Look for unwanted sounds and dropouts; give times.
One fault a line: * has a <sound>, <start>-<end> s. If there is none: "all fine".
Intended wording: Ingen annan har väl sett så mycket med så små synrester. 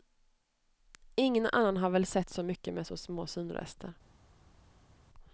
all fine